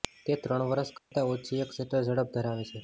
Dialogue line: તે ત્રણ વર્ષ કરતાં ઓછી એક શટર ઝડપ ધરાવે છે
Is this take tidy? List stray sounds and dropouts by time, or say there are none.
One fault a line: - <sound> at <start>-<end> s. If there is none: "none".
- dropout at 1.0-1.1 s